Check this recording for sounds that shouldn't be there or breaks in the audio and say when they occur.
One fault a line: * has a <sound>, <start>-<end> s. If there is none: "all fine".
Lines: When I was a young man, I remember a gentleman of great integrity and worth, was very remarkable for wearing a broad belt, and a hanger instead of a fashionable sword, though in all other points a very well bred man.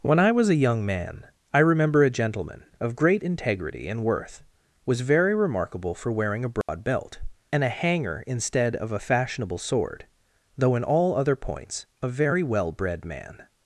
* has a dropout, 6.6-6.7 s